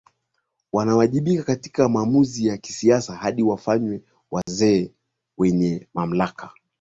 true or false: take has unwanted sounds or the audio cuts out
true